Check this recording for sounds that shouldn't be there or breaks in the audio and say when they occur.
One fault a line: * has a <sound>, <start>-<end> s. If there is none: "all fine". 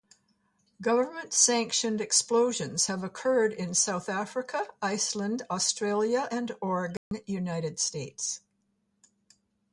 * has a dropout, 7.0-7.1 s